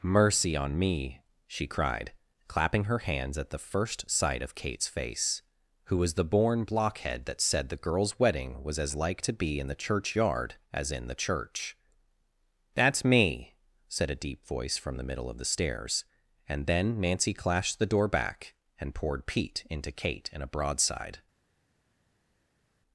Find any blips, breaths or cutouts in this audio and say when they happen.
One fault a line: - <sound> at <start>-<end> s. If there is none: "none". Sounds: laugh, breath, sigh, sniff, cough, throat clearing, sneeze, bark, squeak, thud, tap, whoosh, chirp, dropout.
none